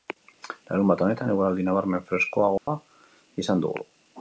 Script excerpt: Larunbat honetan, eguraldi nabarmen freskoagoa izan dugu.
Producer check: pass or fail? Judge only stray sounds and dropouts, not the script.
fail